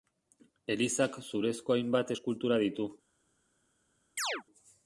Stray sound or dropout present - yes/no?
yes